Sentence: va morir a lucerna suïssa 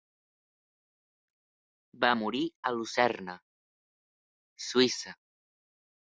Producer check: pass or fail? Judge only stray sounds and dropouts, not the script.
pass